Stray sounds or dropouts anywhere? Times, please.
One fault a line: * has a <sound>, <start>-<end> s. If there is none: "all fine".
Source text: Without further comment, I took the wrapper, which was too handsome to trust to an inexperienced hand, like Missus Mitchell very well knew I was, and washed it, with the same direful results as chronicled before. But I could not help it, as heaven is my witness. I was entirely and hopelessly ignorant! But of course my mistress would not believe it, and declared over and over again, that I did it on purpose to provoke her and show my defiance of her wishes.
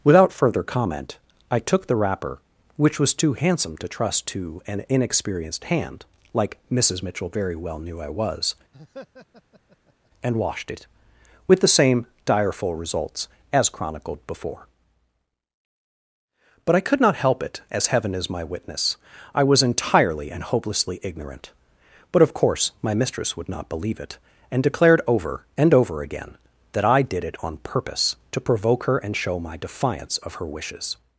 * has a laugh, 8.7-10.1 s